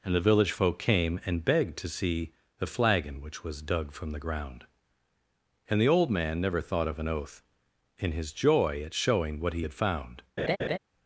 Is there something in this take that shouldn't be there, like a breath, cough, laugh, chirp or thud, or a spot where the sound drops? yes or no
yes